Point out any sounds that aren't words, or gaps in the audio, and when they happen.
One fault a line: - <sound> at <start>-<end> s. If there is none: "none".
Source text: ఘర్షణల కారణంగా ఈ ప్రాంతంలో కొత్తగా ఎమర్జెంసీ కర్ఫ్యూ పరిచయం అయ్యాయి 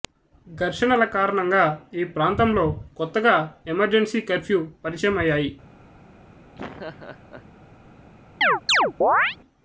- laugh at 6.5-7.5 s
- chirp at 8.4-9.4 s